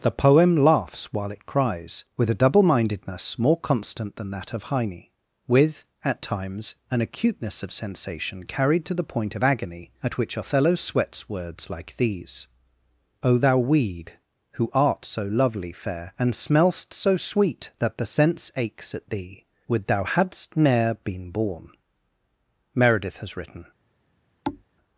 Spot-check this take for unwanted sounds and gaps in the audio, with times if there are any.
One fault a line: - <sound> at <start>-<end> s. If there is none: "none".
- thud at 24.4-24.6 s